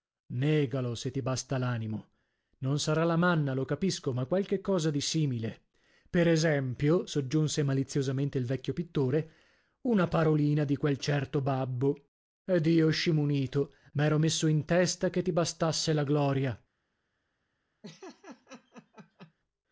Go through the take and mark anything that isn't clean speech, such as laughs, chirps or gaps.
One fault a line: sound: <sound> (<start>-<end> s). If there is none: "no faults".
sound: laugh (17.8-19.3 s)